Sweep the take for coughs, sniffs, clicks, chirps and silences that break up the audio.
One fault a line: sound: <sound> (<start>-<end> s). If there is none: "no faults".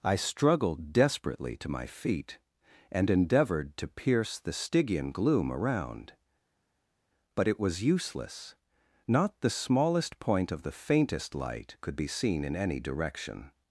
no faults